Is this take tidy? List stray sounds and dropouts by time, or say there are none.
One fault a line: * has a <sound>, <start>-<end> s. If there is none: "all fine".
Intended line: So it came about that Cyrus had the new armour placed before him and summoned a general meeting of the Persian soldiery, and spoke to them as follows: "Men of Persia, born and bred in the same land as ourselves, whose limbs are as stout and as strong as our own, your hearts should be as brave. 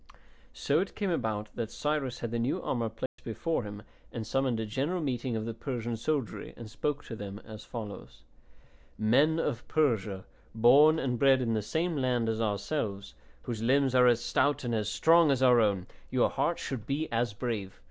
* has a dropout, 3.1-3.2 s